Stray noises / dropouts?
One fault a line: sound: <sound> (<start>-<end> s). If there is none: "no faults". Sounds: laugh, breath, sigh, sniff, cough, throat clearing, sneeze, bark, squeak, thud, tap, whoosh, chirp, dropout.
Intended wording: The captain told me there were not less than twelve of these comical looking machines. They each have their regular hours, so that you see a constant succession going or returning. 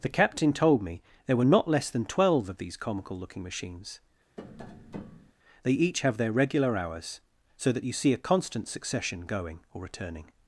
sound: tap (4.4-5.3 s)